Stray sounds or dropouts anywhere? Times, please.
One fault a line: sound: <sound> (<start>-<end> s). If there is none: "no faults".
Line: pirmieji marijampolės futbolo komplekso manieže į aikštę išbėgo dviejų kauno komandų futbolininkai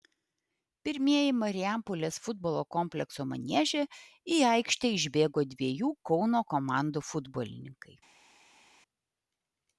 no faults